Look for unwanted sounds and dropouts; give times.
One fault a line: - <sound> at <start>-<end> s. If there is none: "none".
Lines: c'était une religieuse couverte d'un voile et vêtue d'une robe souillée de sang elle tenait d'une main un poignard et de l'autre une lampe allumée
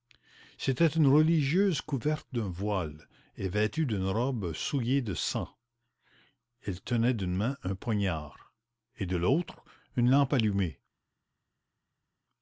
none